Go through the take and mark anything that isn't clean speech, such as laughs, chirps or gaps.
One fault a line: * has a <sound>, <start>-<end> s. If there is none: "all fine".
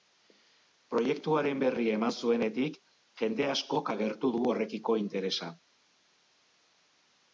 all fine